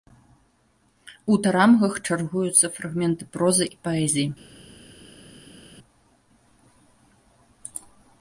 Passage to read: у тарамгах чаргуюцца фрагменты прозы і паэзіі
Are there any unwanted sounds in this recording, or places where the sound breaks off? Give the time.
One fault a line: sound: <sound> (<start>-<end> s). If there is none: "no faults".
no faults